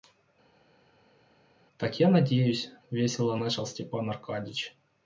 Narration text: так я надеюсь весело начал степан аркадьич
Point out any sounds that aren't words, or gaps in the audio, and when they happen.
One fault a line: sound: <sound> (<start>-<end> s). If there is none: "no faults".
no faults